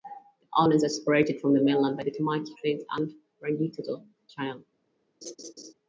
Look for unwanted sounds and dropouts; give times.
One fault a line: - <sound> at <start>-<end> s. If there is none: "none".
- laugh at 5.2-5.7 s